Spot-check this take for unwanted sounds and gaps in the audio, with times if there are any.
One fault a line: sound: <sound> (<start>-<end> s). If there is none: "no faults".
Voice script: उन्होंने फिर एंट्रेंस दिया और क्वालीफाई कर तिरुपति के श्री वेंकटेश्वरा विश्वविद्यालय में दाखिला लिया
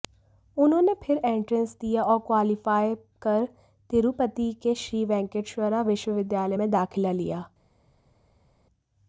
no faults